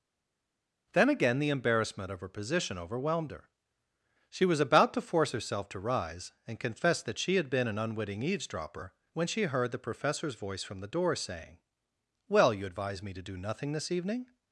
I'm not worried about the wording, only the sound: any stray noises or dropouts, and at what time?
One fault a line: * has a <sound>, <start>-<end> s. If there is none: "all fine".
all fine